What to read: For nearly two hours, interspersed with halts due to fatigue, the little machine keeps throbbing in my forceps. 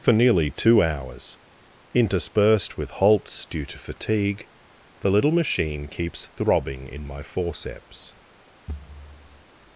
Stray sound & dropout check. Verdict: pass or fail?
fail